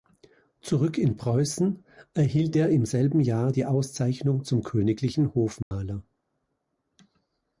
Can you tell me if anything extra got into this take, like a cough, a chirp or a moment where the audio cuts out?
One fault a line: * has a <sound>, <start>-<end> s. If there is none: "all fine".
* has a dropout, 5.6-5.7 s